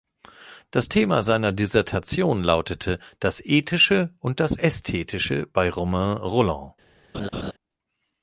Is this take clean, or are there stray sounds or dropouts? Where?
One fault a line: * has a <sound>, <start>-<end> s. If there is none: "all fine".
* has a laugh, 7.1-7.5 s